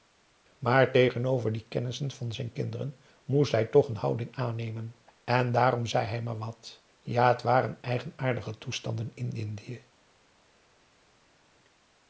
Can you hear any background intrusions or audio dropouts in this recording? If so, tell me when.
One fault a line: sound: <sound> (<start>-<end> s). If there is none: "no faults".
no faults